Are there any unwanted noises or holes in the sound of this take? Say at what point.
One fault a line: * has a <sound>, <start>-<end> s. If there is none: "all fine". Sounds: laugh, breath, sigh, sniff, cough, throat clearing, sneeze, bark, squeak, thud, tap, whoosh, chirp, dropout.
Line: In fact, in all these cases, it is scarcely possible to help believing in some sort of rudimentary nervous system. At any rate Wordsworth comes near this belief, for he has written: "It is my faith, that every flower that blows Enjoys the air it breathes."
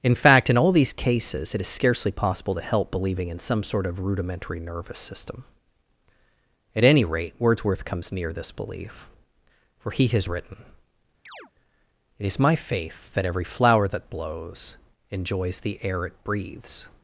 * has a chirp, 11.3-11.5 s